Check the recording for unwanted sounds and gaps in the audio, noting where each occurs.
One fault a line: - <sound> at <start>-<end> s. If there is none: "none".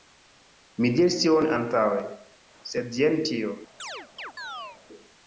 - chirp at 3.8-4.8 s